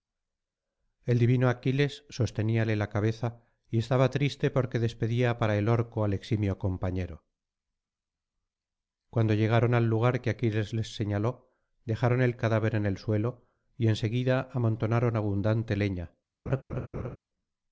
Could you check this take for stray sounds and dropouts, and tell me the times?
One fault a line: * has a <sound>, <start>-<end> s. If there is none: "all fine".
* has a laugh, 16.5-17.2 s